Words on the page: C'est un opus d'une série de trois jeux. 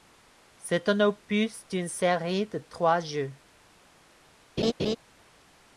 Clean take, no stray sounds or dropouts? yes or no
no